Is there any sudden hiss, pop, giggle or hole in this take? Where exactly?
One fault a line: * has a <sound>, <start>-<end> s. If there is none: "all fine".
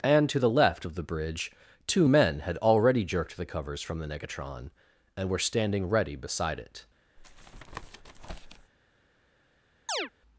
* has a tap, 7.2-8.7 s
* has a chirp, 9.9-10.1 s